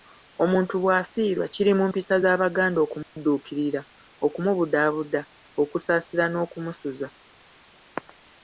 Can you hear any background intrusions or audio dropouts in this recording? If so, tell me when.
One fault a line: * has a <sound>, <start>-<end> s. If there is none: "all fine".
* has a dropout, 3.0-3.2 s